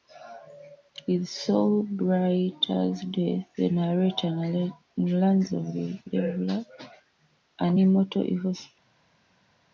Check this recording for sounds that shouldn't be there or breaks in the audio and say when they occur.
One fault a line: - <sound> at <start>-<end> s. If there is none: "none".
none